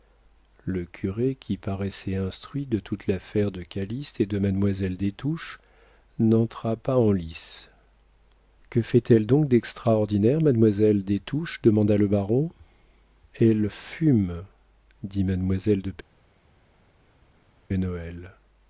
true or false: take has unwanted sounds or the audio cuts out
false